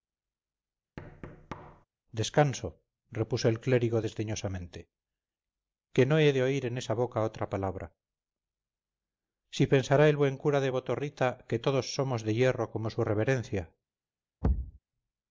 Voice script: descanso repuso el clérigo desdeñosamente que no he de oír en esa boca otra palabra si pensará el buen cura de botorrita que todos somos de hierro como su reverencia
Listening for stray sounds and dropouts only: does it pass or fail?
fail